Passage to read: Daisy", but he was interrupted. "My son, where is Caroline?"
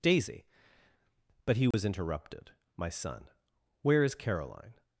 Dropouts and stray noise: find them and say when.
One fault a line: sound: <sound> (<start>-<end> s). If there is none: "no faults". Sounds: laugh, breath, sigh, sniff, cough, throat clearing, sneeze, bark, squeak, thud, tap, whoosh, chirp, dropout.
sound: dropout (1.7-1.7 s)